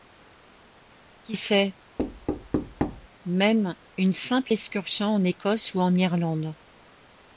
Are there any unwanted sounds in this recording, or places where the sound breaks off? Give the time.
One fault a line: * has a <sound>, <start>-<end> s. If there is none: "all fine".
* has a thud, 2.0-3.1 s